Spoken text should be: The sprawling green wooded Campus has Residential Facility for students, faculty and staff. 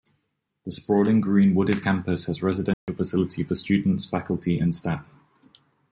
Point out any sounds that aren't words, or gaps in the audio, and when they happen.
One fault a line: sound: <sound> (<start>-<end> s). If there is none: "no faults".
sound: dropout (2.7-2.9 s)